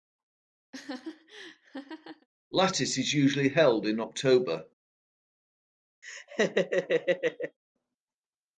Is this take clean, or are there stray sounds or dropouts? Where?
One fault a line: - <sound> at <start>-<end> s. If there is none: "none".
- laugh at 0.7-2.3 s
- laugh at 6.0-7.6 s